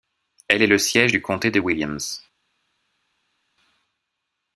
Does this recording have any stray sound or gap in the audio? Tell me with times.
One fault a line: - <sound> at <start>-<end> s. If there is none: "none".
none